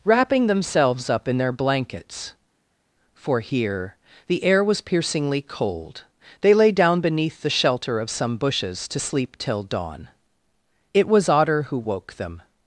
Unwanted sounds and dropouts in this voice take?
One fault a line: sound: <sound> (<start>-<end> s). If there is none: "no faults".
no faults